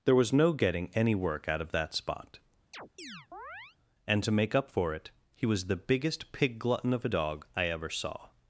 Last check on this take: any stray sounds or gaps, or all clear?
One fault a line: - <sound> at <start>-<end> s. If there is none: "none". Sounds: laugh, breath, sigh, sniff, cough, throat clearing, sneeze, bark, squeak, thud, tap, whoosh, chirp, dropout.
- chirp at 2.7-3.8 s